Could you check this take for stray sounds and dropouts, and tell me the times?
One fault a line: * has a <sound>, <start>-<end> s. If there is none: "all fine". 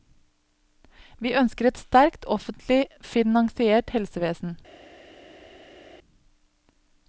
all fine